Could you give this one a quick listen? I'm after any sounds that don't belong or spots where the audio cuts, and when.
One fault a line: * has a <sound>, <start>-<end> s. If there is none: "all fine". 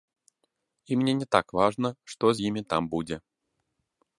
all fine